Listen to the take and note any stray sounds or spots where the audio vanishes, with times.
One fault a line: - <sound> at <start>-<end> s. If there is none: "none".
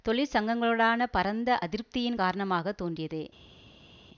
none